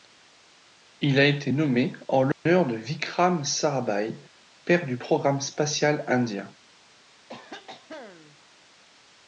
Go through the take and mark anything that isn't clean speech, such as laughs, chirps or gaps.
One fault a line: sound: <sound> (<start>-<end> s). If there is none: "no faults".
sound: dropout (2.3-2.5 s)
sound: cough (7.3-8.4 s)